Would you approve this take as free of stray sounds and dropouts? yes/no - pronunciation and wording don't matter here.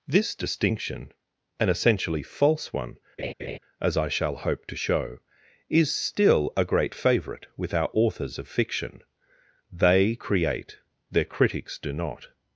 no